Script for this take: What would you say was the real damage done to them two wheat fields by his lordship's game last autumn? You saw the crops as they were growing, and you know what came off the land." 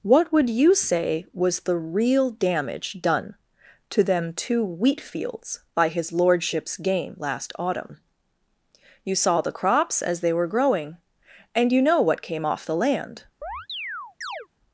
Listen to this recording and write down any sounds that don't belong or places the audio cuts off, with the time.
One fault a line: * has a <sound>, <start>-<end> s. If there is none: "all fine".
* has a chirp, 13.4-14.5 s